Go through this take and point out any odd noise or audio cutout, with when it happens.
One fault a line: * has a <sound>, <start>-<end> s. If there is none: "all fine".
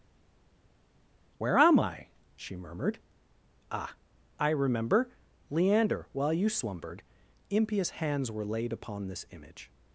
all fine